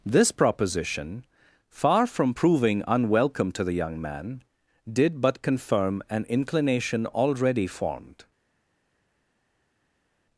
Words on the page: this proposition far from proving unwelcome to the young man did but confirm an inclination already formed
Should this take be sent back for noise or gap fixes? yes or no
no